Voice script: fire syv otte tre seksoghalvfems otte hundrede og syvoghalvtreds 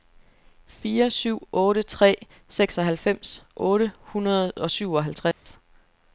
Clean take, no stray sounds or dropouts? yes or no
no